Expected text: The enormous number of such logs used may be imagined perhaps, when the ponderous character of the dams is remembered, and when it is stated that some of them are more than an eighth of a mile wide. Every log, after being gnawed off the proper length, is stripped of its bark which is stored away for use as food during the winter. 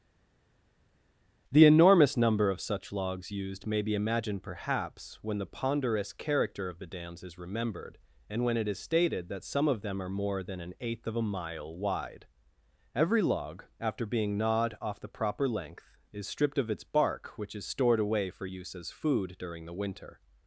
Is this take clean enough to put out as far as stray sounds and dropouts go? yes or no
yes